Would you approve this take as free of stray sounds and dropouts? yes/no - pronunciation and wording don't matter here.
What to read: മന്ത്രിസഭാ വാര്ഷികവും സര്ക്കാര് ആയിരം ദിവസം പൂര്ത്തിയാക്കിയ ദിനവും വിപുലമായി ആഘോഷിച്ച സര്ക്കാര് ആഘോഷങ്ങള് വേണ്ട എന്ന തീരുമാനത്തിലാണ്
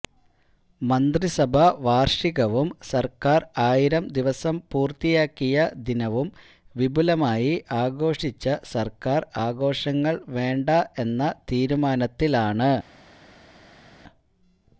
yes